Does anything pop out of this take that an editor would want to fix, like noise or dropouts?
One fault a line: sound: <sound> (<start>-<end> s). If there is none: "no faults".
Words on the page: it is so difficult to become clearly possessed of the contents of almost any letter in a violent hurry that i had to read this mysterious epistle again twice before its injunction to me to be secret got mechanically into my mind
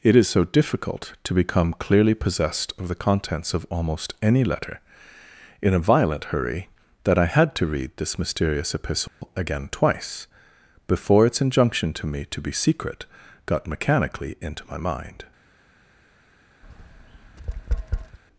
sound: dropout (9.1-9.2 s)
sound: tap (16.6-18.2 s)